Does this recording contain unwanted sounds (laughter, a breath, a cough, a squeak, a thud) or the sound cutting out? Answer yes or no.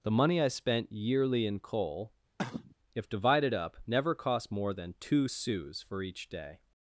yes